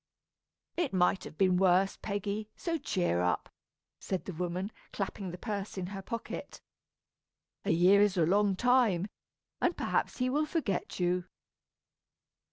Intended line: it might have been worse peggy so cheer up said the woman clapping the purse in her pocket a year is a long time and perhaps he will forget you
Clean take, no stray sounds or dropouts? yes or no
yes